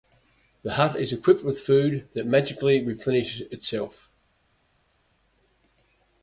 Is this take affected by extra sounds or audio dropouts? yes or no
no